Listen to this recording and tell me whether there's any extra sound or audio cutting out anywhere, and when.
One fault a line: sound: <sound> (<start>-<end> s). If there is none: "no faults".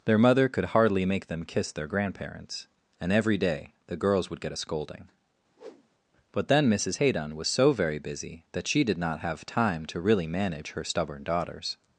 sound: whoosh (5.6-5.9 s)